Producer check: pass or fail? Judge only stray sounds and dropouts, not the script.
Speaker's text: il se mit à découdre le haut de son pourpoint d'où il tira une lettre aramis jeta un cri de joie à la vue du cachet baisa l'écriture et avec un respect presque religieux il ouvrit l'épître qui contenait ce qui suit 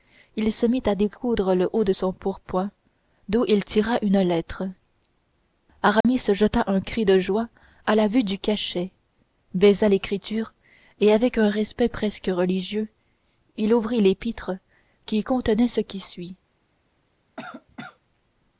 fail